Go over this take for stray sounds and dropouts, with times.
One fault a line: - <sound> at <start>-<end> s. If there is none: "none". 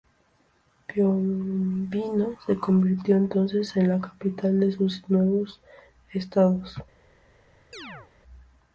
- chirp at 7.7-8.1 s